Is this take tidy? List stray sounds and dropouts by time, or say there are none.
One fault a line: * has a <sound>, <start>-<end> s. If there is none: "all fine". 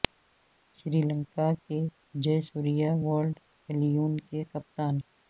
all fine